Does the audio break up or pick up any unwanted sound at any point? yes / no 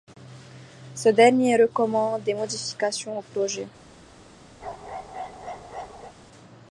yes